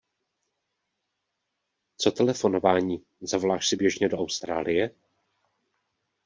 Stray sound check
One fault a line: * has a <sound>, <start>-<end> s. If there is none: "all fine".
all fine